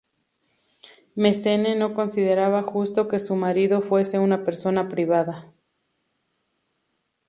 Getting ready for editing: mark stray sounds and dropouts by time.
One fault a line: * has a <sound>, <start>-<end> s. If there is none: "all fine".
all fine